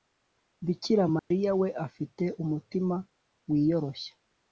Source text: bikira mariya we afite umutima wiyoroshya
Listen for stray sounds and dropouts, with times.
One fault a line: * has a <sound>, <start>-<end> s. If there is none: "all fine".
* has a dropout, 1.2-1.3 s